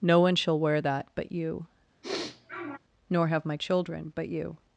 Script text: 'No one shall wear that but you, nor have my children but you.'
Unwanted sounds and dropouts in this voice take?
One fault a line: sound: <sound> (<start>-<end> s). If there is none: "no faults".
sound: sniff (2.0-2.8 s)